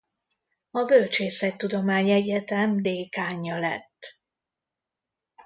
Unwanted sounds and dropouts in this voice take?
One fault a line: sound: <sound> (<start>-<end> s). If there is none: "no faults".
no faults